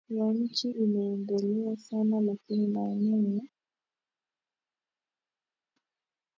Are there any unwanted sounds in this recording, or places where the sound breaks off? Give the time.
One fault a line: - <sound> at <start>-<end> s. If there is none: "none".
none